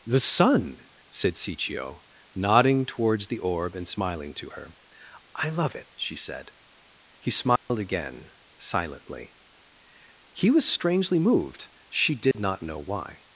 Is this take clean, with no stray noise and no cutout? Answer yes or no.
no